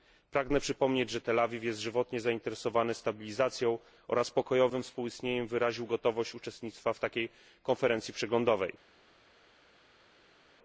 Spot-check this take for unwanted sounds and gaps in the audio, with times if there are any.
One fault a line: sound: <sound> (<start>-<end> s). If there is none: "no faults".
no faults